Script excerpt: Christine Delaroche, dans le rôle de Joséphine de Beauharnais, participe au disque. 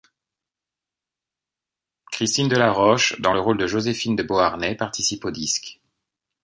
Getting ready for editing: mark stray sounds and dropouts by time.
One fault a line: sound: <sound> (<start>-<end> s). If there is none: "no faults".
no faults